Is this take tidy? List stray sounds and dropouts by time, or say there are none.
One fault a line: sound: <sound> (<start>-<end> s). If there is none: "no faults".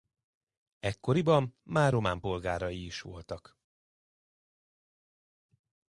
no faults